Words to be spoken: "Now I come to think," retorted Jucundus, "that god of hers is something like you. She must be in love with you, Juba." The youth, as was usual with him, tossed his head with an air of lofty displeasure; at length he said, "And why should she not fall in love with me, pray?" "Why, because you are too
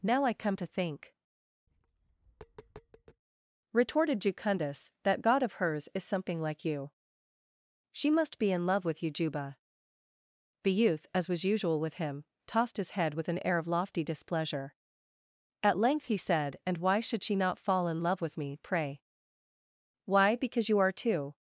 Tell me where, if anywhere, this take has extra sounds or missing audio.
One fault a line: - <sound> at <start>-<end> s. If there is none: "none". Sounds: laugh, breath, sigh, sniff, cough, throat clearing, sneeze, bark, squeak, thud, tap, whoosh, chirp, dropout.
- tap at 1.7-3.2 s